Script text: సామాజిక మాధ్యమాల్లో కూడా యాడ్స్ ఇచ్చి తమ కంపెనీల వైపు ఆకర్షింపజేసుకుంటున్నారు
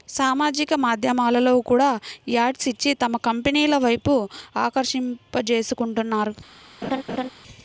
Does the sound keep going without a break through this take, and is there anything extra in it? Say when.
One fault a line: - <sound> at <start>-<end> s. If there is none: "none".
- laugh at 6.8-7.3 s